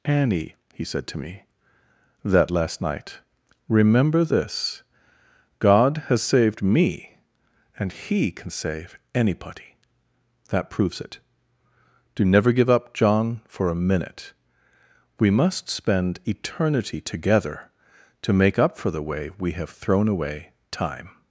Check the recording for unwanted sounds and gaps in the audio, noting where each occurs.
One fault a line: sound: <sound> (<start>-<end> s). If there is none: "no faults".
no faults